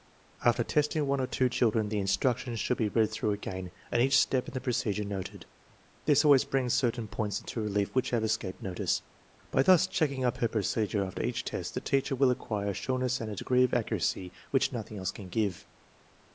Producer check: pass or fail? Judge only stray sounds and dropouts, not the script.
pass